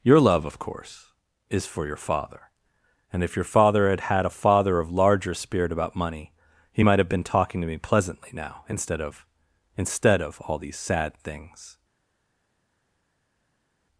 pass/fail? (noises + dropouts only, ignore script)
pass